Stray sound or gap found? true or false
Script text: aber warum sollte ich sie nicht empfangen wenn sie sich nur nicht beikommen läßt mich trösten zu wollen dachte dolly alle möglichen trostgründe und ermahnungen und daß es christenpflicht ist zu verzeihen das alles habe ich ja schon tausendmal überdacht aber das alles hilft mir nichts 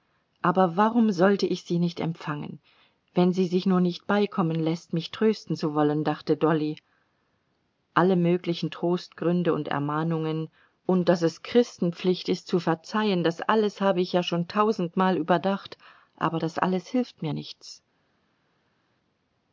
false